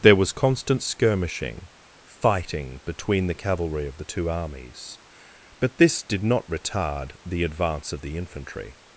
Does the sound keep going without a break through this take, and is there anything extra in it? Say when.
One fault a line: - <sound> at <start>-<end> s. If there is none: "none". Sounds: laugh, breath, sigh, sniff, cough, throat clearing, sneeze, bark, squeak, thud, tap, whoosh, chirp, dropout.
none